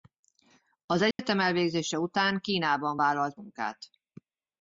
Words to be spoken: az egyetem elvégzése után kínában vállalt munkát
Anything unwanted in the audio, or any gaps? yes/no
yes